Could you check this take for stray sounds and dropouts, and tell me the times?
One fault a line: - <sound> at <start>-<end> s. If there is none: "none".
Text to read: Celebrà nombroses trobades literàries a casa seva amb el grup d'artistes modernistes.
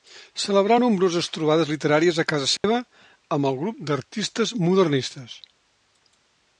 - dropout at 2.6-2.6 s